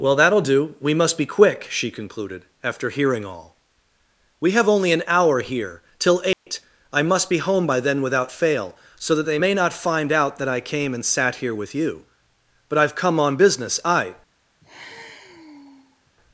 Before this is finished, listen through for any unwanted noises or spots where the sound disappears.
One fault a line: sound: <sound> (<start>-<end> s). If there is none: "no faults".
sound: dropout (6.3-6.5 s)
sound: sigh (14.6-16.1 s)